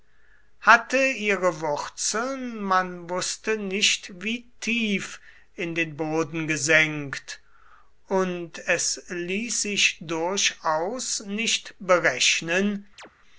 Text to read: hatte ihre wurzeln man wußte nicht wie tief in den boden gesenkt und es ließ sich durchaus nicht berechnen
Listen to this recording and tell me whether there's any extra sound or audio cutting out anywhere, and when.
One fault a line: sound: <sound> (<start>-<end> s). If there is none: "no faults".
sound: chirp (13.0-13.1 s)